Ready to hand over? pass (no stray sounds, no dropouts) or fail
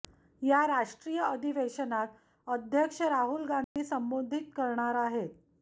fail